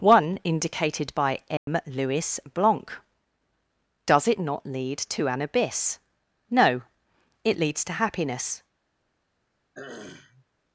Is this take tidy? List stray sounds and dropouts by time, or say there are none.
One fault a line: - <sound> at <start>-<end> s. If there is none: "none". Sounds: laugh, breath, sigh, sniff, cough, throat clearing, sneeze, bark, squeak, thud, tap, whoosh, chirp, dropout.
- dropout at 1.6-1.7 s
- throat clearing at 9.7-10.5 s